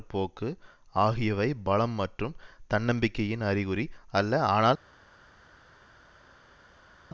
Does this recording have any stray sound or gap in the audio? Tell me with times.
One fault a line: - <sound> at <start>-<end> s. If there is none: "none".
none